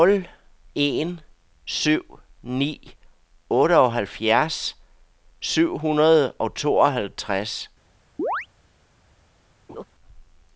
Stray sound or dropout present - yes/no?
yes